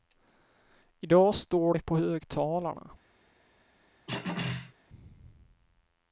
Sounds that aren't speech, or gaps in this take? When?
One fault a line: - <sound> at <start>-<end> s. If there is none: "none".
- throat clearing at 4.1-4.7 s